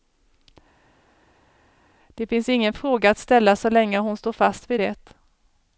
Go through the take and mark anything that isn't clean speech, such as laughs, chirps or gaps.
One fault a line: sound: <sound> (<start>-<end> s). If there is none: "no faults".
no faults